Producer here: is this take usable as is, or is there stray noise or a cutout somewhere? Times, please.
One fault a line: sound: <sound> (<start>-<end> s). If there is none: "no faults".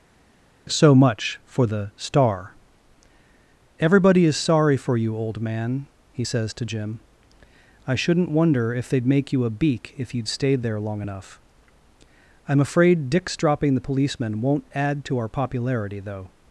no faults